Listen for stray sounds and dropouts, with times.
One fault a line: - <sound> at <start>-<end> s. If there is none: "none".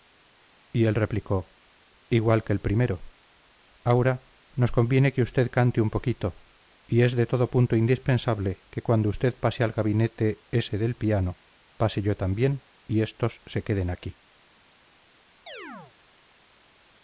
- chirp at 15.5-15.9 s